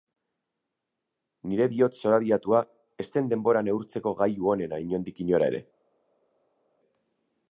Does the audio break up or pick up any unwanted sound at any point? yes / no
no